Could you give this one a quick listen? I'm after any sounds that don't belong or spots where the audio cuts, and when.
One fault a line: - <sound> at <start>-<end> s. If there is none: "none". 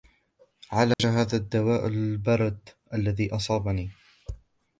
- dropout at 0.9-1.0 s